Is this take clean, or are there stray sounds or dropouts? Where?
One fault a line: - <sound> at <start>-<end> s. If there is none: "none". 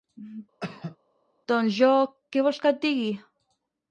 - cough at 0.6-1.0 s